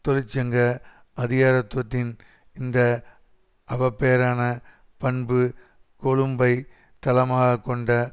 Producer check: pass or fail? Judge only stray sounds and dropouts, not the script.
pass